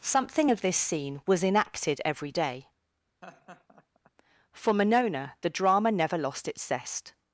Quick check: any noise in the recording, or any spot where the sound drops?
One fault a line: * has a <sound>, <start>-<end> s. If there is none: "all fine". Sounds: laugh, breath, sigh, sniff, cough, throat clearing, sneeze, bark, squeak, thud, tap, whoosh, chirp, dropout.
* has a laugh, 3.2-4.1 s